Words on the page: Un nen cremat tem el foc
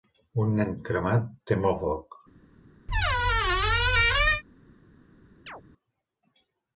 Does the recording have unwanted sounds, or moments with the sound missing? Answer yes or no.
yes